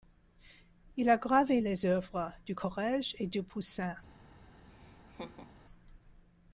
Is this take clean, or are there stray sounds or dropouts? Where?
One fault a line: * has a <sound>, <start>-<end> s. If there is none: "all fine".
* has a laugh, 4.7-5.5 s